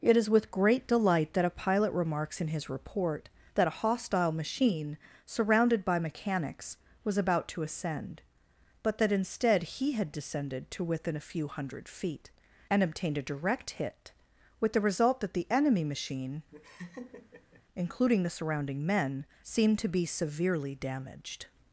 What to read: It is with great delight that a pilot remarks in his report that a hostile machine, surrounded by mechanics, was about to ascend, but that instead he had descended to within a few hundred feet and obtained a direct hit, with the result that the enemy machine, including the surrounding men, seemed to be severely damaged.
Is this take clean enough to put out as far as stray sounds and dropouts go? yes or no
no